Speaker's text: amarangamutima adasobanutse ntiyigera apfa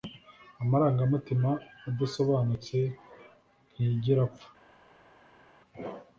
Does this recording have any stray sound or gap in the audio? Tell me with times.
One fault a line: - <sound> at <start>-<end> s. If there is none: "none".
none